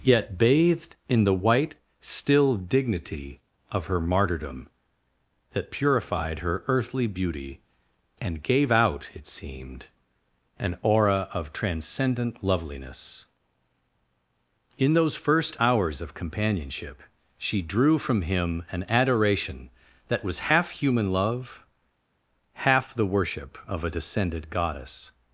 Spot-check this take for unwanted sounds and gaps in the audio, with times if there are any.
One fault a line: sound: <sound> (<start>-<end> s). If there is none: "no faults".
no faults